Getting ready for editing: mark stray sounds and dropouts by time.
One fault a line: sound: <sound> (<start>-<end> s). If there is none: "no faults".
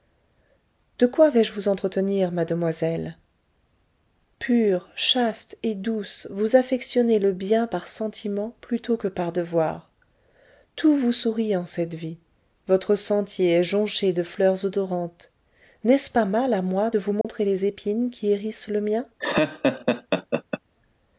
sound: dropout (17.2-17.2 s)
sound: laugh (19.2-20.6 s)